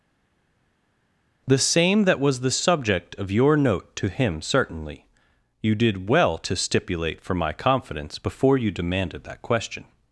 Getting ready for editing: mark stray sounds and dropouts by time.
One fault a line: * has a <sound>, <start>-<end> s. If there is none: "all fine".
all fine